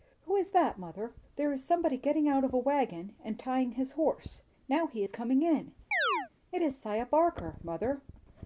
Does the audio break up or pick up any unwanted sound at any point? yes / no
yes